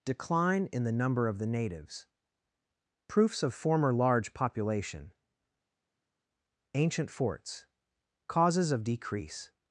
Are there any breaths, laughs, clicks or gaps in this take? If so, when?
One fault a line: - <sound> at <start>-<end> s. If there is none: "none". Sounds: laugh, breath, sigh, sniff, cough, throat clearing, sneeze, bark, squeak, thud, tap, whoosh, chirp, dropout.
none